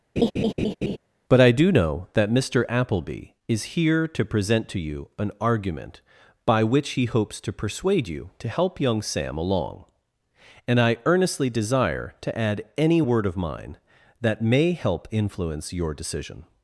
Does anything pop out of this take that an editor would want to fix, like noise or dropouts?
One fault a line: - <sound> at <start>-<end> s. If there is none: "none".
- laugh at 0.2-1.0 s